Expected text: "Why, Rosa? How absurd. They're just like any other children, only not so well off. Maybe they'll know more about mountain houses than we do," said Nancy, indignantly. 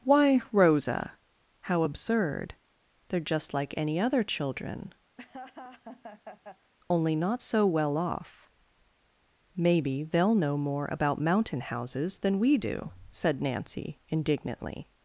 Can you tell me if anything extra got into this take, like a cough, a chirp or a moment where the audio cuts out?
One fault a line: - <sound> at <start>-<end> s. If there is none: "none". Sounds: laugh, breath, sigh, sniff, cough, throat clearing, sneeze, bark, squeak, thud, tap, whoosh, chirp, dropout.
- laugh at 5.2-6.7 s